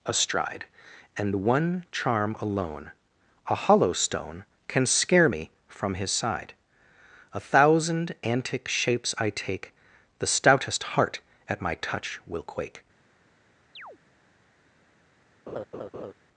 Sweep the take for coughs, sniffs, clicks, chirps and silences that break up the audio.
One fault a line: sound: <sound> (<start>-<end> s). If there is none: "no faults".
sound: chirp (13.8-14.0 s)
sound: laugh (15.5-16.1 s)